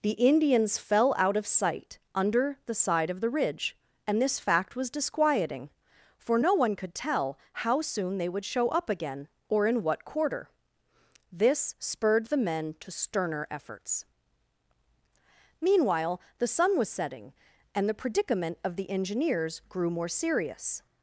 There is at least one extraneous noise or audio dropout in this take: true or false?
false